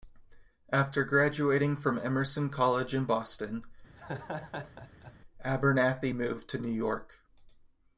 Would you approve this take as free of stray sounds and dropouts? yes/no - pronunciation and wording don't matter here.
no